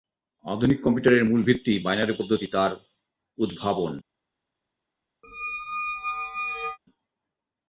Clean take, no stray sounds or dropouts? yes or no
no